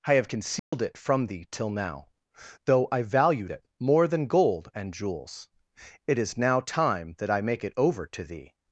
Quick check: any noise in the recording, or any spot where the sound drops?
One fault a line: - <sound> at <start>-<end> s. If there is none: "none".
- dropout at 0.6-0.7 s